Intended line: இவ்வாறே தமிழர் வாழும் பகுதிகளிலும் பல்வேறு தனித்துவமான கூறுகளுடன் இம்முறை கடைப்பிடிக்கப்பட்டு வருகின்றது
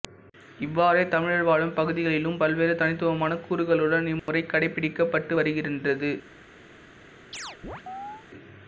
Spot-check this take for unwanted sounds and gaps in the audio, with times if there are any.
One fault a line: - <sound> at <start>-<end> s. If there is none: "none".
- dropout at 4.2-4.3 s
- chirp at 7.3-8.3 s